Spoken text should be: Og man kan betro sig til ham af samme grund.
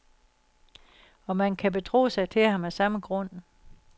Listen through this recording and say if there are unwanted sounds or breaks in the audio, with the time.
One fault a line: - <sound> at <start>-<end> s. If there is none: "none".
none